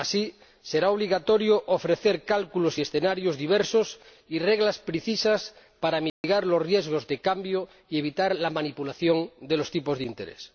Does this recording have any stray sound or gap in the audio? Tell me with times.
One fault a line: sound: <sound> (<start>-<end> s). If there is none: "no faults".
sound: dropout (6.1-6.2 s)